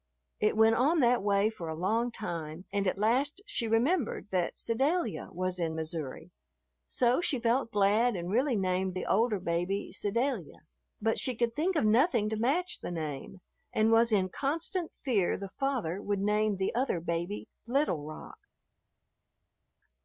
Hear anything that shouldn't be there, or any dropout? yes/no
no